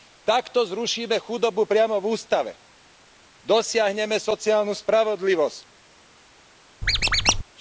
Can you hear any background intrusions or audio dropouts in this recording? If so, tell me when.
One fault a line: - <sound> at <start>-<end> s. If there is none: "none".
- squeak at 6.8-7.4 s